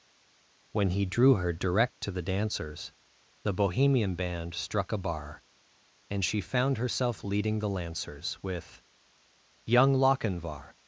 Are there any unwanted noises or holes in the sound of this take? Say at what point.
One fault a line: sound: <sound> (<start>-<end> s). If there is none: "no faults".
no faults